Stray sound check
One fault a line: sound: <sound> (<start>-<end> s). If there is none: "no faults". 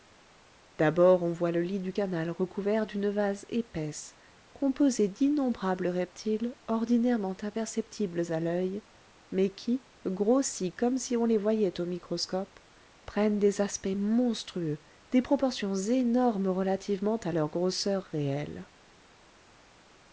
no faults